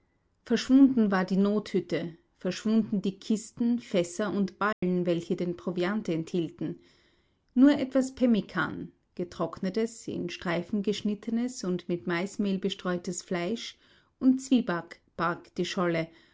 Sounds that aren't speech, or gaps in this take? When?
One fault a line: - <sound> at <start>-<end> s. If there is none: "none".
- dropout at 4.7-4.8 s